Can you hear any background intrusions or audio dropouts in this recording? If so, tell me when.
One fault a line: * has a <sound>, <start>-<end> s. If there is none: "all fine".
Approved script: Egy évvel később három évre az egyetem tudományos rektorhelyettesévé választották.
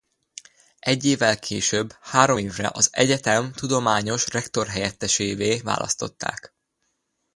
all fine